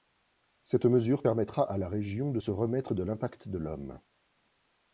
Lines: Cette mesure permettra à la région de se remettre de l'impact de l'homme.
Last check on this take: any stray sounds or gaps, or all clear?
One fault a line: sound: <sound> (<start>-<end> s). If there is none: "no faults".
no faults